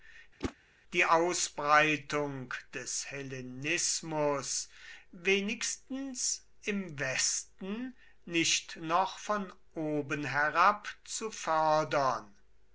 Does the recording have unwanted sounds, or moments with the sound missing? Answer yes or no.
yes